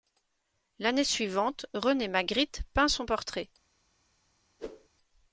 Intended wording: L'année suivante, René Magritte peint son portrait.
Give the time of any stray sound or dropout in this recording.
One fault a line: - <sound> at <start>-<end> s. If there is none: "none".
- whoosh at 4.6-4.9 s